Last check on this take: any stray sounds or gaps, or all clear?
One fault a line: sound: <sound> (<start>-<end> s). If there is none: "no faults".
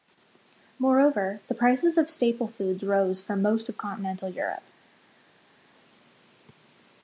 no faults